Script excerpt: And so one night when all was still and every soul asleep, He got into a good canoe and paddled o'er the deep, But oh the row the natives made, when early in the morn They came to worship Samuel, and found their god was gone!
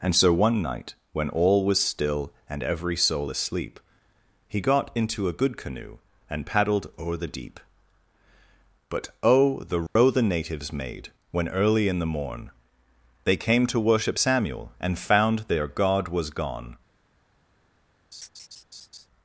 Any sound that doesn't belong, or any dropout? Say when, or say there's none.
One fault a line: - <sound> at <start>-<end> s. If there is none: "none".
- dropout at 9.9-10.0 s
- laugh at 18.1-19.1 s